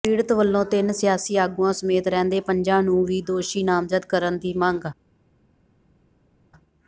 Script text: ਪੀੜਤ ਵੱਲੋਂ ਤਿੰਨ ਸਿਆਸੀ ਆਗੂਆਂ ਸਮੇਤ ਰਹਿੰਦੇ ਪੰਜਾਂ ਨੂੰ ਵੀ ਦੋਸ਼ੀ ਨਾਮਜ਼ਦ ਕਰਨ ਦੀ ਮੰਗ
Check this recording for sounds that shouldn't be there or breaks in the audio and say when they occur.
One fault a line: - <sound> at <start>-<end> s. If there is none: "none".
none